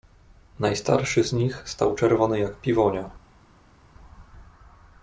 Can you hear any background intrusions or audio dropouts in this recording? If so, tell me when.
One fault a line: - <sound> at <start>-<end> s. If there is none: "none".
none